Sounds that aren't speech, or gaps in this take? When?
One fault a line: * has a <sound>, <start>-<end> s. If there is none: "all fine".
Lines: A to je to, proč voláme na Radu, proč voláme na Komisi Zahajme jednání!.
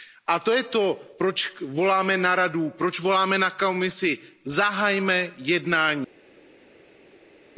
all fine